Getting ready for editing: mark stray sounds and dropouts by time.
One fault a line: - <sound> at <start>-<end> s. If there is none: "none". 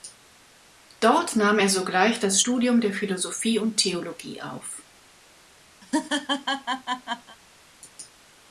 - laugh at 5.8-7.4 s